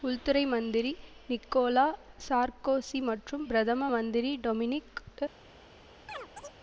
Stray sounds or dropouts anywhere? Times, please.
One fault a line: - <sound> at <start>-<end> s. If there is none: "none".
- chirp at 6.1-6.6 s